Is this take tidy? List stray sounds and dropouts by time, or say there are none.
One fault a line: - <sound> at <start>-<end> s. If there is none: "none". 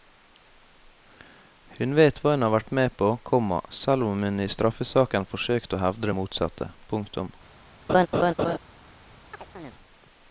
- laugh at 7.9-8.6 s
- chirp at 9.3-9.7 s